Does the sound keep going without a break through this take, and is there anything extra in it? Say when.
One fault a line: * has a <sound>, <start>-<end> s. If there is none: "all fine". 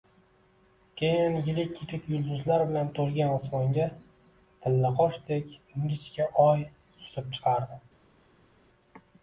all fine